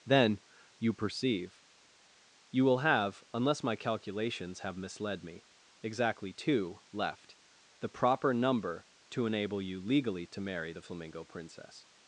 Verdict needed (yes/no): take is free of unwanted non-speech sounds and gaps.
yes